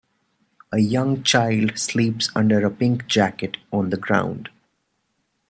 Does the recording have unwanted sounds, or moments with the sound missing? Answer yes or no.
no